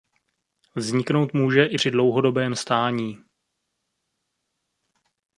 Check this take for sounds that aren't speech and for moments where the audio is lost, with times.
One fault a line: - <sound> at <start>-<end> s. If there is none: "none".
none